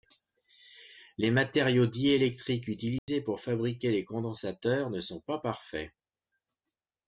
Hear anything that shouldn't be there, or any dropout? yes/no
yes